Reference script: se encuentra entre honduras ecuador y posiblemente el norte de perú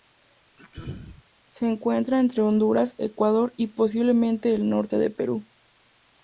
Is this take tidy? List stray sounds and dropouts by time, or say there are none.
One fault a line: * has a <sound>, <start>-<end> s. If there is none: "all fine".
* has a throat clearing, 0.6-1.2 s